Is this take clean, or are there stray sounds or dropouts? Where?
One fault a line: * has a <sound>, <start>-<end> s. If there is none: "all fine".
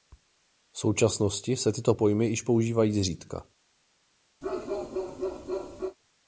* has a bark, 4.4-6.0 s